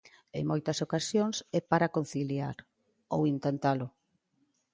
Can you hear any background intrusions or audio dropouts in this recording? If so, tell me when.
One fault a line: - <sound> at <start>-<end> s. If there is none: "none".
none